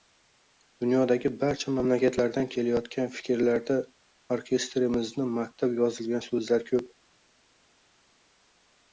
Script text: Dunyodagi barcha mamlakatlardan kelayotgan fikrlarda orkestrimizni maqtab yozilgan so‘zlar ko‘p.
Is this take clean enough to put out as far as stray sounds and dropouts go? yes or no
yes